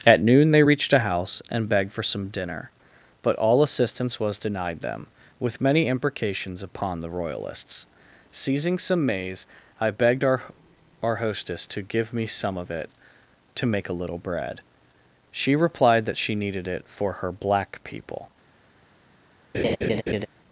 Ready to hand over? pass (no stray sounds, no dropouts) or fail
fail